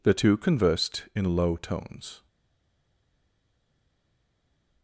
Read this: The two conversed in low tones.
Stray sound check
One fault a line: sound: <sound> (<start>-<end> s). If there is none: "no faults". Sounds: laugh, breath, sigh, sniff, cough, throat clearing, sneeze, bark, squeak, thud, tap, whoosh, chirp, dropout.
no faults